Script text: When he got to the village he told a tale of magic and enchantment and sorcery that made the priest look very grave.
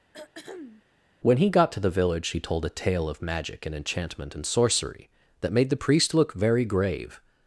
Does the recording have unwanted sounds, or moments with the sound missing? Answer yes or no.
yes